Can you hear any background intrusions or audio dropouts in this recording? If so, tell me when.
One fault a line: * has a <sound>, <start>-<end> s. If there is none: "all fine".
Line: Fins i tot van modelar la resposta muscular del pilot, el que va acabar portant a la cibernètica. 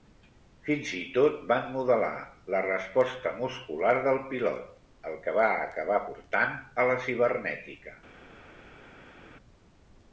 all fine